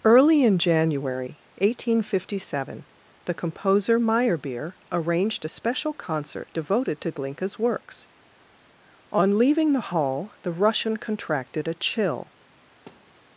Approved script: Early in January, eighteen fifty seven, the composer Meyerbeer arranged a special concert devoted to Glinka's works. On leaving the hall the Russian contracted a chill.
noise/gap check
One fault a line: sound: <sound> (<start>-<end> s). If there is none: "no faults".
sound: thud (12.9-13.2 s)